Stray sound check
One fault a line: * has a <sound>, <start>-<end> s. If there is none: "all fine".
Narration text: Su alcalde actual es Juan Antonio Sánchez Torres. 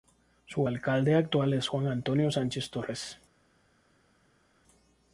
all fine